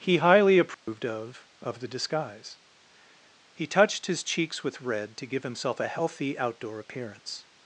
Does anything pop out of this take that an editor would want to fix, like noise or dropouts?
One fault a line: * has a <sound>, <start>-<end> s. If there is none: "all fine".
* has a dropout, 0.7-0.9 s